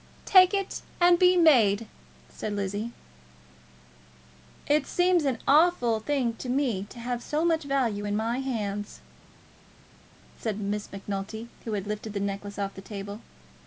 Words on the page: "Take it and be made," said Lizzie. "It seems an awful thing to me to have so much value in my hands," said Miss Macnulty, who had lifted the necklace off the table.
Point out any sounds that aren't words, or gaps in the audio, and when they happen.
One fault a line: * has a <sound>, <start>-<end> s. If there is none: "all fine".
all fine